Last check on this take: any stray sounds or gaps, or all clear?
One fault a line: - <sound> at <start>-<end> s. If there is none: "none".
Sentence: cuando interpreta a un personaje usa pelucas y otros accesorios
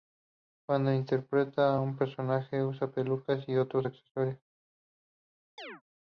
- chirp at 5.6-5.8 s